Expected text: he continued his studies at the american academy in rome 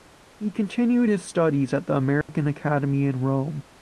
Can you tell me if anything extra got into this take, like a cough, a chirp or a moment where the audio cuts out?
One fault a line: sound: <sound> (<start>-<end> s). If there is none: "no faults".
sound: dropout (2.2-2.3 s)